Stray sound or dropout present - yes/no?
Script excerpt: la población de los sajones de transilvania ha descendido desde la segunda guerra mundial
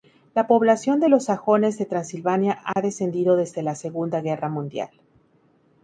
yes